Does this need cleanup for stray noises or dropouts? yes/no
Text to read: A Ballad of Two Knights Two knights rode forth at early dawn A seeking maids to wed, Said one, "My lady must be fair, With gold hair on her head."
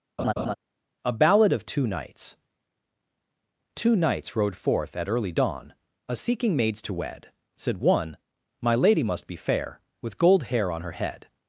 yes